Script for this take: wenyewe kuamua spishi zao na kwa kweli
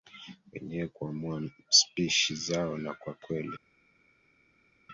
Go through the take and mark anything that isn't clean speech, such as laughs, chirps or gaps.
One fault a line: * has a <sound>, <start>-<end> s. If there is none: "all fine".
all fine